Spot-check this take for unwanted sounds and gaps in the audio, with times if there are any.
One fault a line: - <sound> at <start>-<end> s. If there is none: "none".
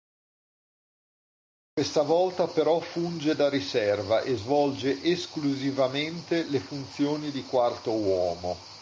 none